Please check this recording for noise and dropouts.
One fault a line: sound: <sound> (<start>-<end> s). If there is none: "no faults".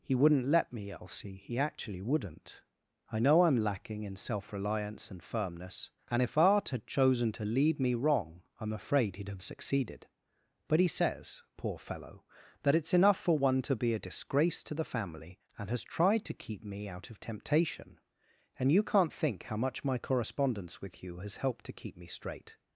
no faults